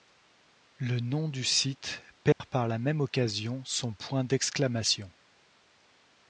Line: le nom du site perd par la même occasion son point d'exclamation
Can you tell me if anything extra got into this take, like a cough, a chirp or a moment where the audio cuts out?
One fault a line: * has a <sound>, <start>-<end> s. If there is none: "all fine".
* has a dropout, 2.3-2.4 s